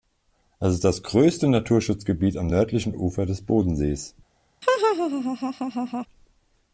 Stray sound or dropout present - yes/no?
yes